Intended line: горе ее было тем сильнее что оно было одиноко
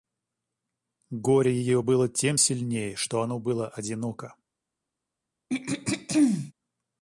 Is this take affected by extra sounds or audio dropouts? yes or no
yes